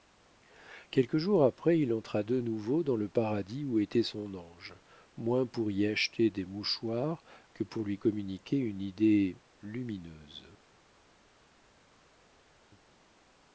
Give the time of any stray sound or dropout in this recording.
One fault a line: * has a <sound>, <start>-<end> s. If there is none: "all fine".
all fine